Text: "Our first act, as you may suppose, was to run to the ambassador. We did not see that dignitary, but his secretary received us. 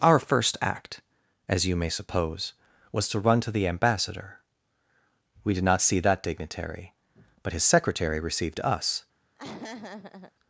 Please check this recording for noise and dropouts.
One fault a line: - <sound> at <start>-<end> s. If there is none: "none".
- laugh at 9.4-10.3 s